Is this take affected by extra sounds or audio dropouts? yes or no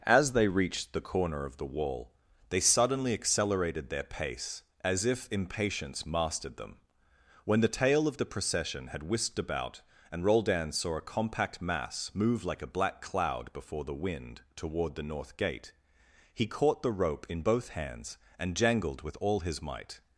no